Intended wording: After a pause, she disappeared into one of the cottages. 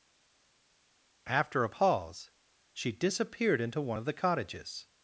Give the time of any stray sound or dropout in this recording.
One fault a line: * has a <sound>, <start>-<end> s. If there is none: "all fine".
all fine